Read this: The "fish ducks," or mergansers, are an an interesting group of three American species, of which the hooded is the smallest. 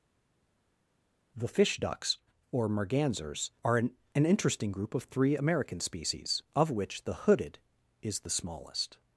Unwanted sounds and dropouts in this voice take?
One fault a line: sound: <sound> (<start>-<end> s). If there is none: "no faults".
no faults